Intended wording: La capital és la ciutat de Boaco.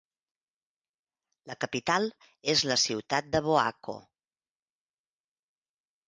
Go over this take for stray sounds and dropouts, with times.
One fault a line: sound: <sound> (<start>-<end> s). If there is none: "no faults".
no faults